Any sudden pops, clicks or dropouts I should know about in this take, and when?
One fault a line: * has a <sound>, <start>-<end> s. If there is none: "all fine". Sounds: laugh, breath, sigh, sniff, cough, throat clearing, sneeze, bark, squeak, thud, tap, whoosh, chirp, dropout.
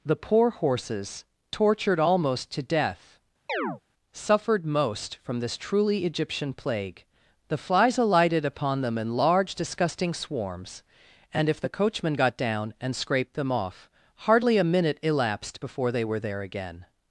* has a chirp, 3.5-3.8 s